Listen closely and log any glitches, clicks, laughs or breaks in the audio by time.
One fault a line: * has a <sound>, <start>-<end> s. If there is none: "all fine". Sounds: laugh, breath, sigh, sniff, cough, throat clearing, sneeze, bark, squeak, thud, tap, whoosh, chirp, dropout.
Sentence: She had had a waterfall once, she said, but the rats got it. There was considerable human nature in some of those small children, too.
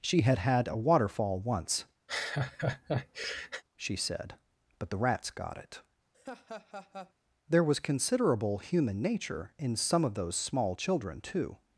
* has a laugh, 2.1-3.6 s
* has a laugh, 6.1-7.1 s